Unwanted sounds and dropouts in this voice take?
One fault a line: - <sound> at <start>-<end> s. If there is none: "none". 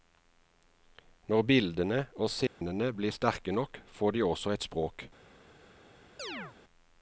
- dropout at 2.5-2.6 s
- chirp at 6.2-6.6 s